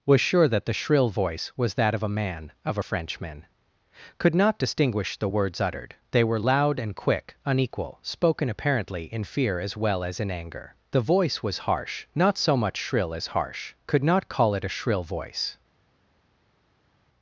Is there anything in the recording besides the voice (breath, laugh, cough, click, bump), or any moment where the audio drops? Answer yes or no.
no